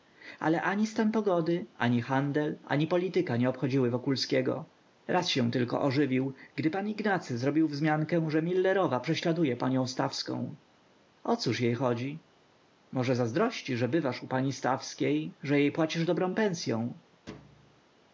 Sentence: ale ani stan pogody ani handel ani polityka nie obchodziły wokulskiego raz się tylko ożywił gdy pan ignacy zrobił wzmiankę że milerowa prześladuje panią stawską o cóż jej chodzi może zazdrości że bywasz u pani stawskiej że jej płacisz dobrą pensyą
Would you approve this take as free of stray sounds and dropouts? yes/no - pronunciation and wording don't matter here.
no